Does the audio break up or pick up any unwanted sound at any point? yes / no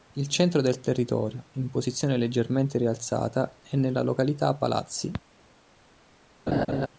yes